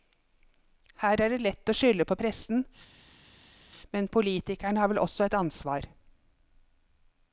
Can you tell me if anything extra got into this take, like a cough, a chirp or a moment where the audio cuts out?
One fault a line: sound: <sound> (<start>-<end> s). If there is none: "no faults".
no faults